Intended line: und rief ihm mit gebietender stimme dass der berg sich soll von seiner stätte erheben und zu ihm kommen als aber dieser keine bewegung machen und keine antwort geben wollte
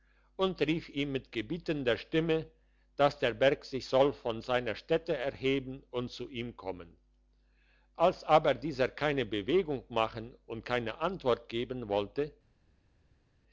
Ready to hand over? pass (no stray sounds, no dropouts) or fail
pass